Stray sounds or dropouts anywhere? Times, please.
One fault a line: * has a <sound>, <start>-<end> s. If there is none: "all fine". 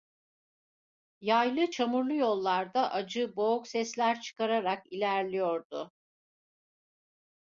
all fine